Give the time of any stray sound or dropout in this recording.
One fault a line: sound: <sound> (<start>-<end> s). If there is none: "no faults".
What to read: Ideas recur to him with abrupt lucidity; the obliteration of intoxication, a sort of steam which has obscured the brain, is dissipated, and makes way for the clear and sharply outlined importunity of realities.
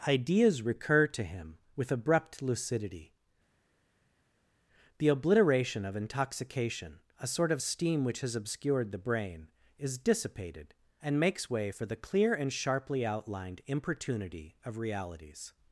no faults